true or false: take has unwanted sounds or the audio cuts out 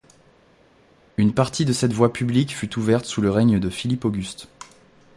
false